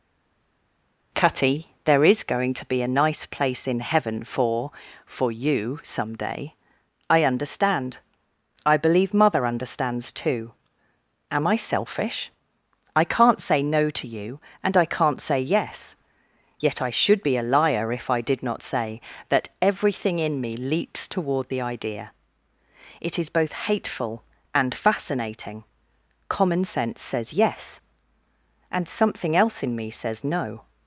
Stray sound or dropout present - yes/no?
no